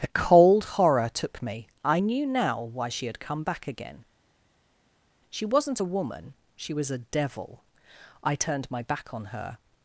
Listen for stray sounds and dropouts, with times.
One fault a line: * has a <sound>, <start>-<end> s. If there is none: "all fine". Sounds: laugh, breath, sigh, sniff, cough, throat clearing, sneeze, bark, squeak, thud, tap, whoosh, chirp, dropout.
all fine